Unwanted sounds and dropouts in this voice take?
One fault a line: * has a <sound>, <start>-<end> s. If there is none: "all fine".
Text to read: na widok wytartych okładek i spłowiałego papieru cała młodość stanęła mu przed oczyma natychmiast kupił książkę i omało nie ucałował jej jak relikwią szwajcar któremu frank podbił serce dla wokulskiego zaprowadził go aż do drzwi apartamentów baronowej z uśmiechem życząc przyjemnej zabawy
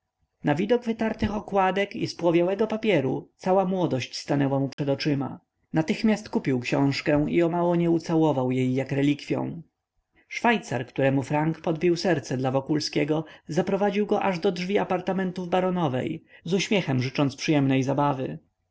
* has a dropout, 4.7-4.8 s